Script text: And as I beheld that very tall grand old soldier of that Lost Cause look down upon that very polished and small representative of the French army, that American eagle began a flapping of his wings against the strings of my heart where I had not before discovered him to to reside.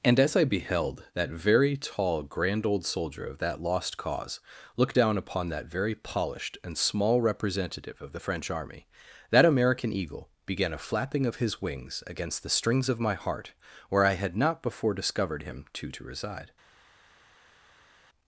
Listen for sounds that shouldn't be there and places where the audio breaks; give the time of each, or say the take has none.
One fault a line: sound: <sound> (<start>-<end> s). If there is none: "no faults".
no faults